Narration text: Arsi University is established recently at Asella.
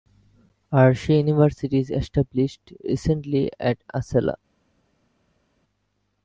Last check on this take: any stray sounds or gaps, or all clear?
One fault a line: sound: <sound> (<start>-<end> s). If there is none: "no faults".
no faults